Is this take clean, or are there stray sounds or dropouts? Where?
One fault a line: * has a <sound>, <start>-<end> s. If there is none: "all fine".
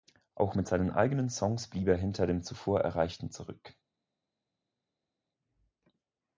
all fine